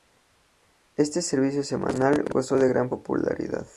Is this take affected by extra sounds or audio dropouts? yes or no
no